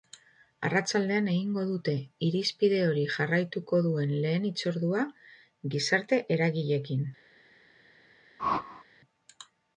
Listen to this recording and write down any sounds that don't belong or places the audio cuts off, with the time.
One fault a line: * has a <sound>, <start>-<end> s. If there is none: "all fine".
* has a whoosh, 8.4-8.8 s